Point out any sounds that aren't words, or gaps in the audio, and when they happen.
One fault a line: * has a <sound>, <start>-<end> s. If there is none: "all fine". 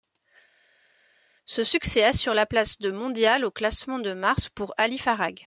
all fine